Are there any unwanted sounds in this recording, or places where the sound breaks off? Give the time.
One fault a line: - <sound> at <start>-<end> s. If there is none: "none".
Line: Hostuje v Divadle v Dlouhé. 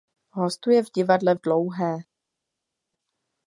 none